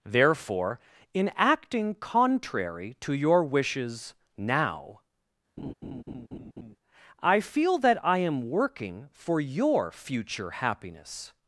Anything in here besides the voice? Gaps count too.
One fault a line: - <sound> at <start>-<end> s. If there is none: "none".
- laugh at 5.6-6.8 s